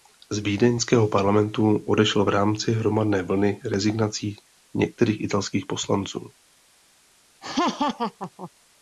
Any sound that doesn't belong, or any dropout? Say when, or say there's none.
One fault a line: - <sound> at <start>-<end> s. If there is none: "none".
- laugh at 7.4-8.5 s